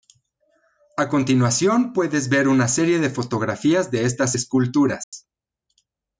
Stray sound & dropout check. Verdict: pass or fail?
fail